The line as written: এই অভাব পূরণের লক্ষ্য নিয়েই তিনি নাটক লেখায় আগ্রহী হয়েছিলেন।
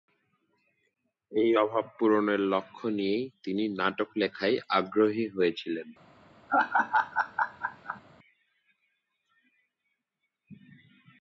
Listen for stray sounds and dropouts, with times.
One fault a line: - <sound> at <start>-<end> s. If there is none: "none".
- laugh at 6.5-8.0 s